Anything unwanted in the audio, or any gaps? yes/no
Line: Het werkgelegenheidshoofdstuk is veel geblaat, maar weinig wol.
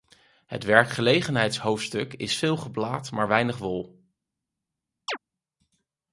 yes